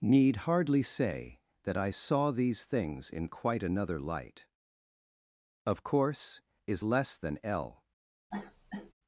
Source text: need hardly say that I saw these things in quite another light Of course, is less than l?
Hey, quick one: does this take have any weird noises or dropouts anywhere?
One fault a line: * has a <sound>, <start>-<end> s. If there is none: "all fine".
* has a cough, 8.3-8.9 s